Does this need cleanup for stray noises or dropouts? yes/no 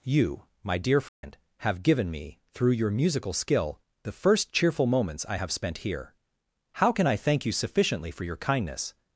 yes